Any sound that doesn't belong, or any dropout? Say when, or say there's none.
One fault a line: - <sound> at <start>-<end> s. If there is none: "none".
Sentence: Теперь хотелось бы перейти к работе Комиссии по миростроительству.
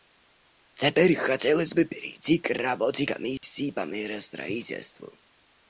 - dropout at 3.4-3.4 s